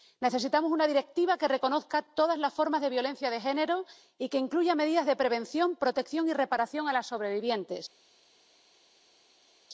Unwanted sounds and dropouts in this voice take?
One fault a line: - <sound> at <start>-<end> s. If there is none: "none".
none